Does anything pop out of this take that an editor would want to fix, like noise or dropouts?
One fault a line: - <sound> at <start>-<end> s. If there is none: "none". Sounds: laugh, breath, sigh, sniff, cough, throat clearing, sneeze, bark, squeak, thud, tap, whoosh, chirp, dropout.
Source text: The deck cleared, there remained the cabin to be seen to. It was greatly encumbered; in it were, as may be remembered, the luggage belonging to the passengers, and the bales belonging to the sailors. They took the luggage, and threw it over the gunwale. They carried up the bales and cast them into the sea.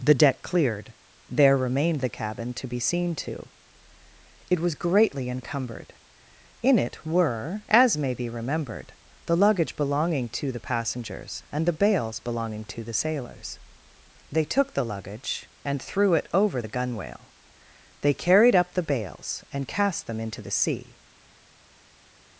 none